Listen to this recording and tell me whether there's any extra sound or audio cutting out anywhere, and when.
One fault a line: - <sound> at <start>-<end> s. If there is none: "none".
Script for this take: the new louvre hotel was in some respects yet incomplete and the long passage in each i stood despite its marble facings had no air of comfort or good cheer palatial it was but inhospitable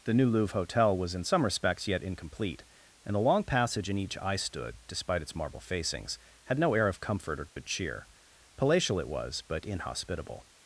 - dropout at 7.5-7.6 s